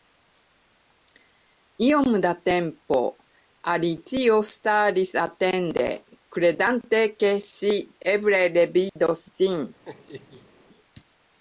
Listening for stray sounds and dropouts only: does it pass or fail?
fail